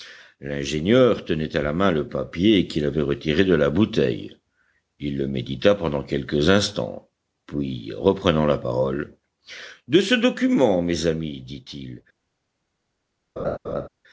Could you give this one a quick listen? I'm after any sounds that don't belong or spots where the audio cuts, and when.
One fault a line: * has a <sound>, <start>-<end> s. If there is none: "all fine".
* has a laugh, 13.4-13.9 s